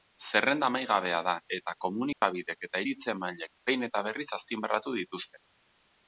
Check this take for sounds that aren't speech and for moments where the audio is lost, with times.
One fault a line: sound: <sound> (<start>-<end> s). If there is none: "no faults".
sound: dropout (2.1-2.2 s)